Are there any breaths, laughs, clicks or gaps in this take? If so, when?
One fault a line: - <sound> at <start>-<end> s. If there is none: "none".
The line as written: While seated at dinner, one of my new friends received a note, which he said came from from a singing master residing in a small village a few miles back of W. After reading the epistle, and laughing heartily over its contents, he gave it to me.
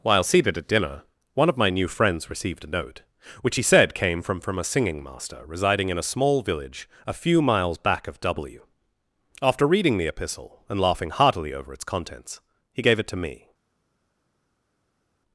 none